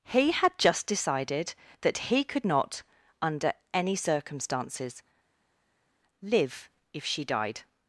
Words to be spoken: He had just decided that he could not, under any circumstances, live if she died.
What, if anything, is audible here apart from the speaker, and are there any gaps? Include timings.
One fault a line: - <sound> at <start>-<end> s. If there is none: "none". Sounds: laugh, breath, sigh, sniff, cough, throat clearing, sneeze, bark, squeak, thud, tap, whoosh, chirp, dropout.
none